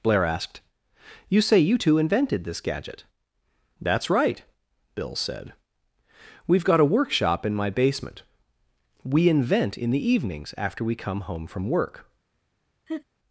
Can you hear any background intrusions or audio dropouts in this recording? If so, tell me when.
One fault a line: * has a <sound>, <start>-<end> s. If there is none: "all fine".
* has a laugh, 12.9-13.0 s